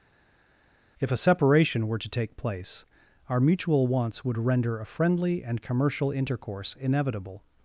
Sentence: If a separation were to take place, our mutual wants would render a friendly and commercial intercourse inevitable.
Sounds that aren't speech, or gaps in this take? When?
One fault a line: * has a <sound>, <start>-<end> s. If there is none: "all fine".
all fine